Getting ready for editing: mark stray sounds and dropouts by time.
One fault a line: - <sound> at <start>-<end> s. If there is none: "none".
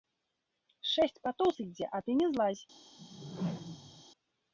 - whoosh at 3.0-4.0 s